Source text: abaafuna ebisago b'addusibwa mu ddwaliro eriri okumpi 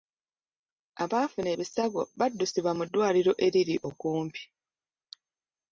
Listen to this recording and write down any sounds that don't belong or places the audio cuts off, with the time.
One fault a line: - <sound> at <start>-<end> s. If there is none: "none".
none